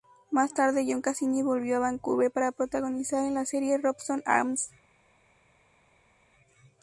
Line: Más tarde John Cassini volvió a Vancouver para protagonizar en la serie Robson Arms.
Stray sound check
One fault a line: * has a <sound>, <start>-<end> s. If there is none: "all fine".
all fine